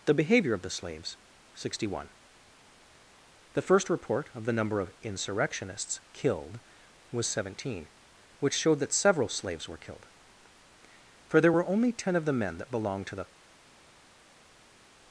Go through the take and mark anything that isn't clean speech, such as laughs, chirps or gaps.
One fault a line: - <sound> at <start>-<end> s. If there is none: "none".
none